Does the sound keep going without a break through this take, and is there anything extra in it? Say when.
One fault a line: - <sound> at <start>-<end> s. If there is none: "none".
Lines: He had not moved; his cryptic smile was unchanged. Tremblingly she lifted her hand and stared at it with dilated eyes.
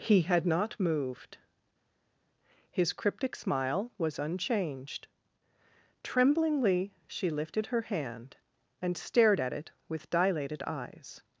none